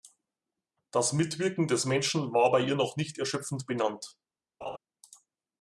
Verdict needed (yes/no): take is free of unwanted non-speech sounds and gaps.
no